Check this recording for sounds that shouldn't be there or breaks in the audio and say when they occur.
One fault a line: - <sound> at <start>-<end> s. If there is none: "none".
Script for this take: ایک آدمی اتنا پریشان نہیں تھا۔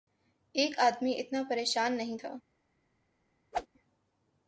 - whoosh at 3.5-3.7 s